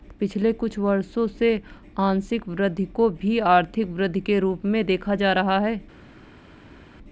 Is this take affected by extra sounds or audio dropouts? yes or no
no